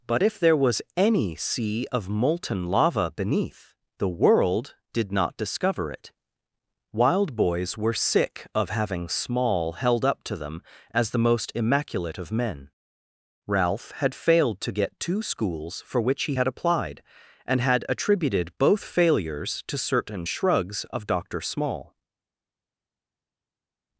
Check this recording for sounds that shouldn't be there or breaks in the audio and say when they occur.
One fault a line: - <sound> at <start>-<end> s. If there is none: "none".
none